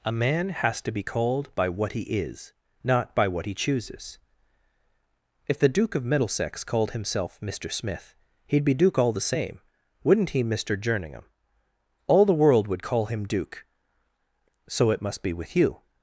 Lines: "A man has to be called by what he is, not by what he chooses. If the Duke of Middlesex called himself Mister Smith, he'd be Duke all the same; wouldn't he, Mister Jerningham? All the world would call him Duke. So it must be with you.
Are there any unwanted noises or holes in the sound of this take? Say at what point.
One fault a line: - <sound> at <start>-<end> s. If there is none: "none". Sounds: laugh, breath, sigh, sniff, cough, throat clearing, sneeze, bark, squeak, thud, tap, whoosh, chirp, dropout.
none